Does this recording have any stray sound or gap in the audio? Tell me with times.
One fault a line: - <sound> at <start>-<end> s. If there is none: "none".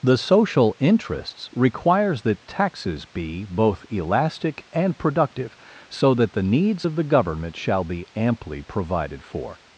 none